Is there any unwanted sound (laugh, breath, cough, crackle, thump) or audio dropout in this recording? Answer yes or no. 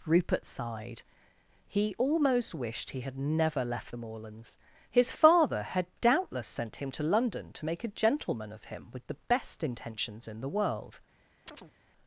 yes